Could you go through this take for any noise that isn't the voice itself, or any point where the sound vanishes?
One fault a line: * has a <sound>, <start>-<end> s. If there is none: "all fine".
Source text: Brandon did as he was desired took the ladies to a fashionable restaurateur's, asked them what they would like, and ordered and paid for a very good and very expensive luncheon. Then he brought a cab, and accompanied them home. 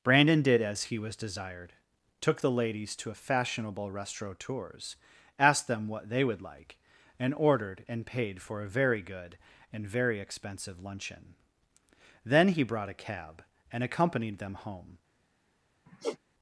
* has a sigh, 15.9-16.2 s